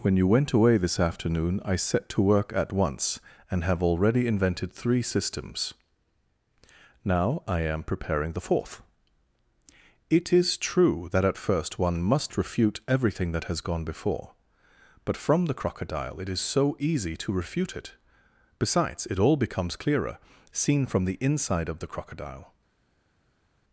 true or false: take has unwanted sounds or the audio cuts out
false